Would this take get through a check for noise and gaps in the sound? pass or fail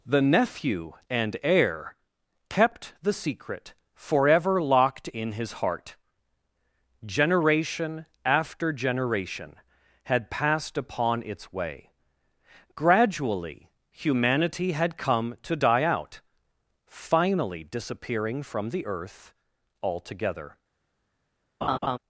fail